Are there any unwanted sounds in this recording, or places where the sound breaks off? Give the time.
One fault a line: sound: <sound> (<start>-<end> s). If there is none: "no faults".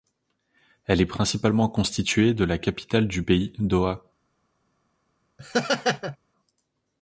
sound: laugh (5.4-6.2 s)